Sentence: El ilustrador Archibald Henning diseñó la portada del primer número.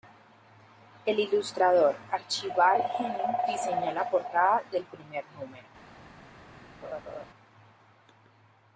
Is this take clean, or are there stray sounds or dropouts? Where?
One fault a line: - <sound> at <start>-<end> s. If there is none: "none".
- laugh at 6.8-7.3 s